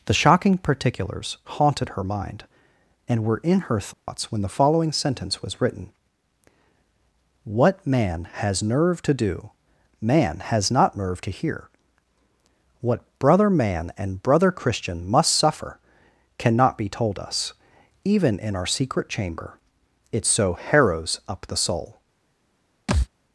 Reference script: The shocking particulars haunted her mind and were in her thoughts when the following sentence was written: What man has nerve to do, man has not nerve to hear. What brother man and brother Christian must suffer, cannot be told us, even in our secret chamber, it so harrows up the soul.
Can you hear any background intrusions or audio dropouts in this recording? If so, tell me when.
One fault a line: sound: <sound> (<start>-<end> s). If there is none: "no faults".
sound: dropout (3.9-4.1 s)
sound: thud (22.9-23.1 s)